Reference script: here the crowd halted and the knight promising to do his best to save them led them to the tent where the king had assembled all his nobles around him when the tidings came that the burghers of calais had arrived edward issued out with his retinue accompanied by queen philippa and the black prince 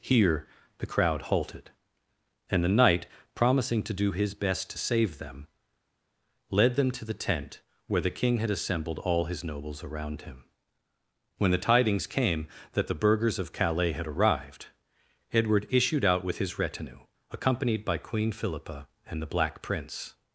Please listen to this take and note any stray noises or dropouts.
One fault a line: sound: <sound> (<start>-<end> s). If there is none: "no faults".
no faults